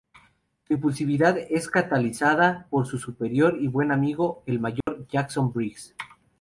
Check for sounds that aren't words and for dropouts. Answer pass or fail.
fail